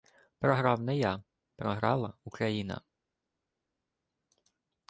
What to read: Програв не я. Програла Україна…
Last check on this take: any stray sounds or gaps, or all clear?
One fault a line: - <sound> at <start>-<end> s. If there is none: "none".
none